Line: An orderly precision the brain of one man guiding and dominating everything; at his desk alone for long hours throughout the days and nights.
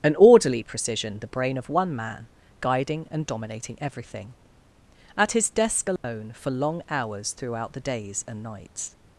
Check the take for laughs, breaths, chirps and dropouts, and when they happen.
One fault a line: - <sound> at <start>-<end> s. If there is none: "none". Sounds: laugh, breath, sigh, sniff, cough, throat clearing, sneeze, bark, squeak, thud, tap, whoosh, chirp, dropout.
- dropout at 6.0-6.0 s